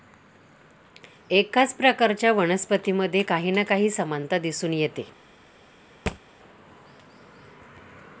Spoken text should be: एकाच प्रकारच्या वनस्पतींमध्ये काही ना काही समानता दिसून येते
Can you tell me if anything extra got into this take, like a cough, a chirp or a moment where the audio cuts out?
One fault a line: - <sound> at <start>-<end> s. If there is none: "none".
- thud at 6.1-6.2 s